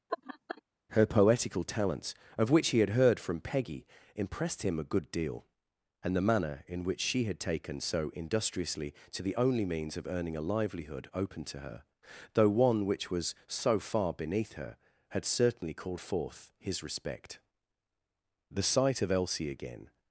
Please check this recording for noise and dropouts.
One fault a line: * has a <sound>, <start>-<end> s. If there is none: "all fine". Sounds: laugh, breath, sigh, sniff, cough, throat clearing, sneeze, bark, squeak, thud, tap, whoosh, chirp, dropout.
* has a laugh, 0.1-0.6 s